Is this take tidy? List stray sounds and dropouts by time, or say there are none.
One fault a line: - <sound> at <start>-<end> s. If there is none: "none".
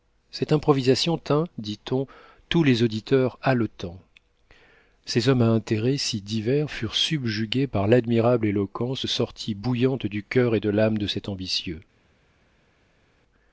none